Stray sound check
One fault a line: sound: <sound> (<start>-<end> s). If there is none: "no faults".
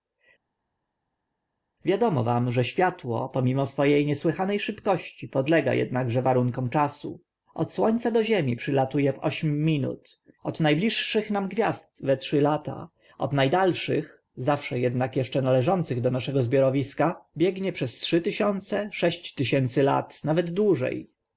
no faults